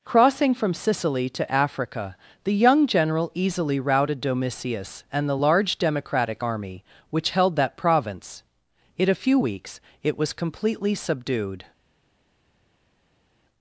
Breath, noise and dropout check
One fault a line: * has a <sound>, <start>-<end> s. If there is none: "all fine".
all fine